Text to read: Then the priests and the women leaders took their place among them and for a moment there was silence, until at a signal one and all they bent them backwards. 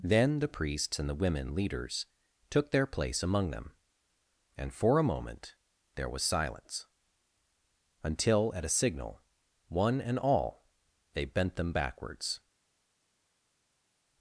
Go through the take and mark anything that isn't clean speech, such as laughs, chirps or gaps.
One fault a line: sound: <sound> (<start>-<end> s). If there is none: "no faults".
no faults